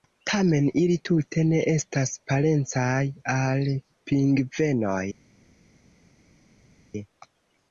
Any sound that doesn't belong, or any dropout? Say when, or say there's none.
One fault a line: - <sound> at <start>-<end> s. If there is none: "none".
none